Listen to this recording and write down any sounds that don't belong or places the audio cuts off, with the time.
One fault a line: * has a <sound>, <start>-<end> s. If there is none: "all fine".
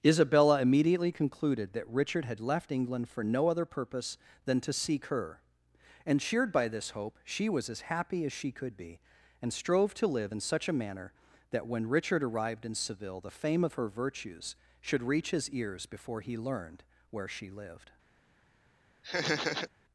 * has a laugh, 19.0-19.7 s